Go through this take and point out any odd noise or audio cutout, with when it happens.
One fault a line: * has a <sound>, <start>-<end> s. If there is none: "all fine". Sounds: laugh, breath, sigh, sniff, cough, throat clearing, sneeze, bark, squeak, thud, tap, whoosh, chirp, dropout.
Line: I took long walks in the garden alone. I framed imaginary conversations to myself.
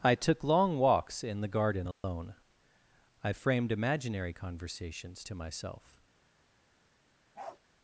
* has a dropout, 1.9-2.0 s
* has a bark, 7.3-7.6 s